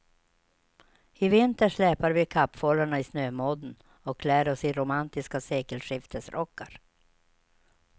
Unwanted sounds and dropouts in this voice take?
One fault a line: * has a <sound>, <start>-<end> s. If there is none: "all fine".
all fine